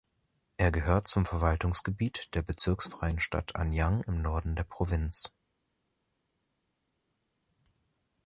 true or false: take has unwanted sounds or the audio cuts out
false